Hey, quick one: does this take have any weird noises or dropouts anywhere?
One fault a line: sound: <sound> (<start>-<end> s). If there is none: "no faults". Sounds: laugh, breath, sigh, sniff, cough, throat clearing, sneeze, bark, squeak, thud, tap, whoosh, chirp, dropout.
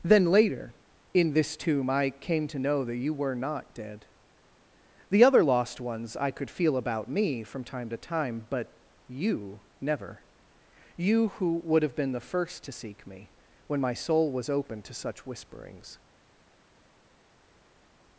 no faults